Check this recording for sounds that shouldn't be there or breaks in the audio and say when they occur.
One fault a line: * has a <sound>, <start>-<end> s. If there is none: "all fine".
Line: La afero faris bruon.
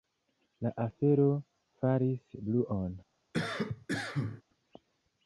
* has a cough, 3.3-4.4 s